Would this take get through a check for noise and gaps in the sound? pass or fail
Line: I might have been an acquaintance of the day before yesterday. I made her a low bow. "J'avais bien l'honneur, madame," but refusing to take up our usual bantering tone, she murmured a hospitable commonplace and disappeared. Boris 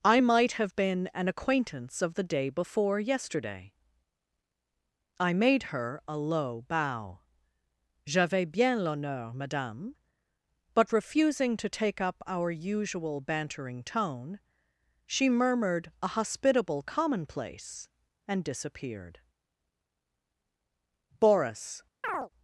fail